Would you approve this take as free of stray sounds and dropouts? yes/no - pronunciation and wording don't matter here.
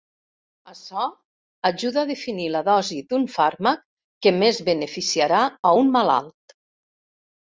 yes